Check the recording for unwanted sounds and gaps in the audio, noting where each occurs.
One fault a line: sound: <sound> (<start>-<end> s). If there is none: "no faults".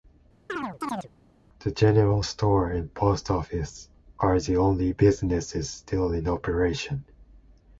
sound: chirp (0.5-1.1 s)